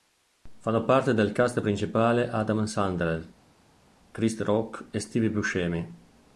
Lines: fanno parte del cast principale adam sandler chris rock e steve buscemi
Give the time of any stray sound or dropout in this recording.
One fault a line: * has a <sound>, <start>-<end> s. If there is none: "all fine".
all fine